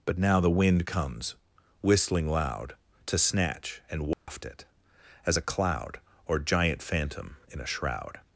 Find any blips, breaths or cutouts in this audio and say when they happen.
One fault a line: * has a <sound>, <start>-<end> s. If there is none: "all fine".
* has a dropout, 4.1-4.3 s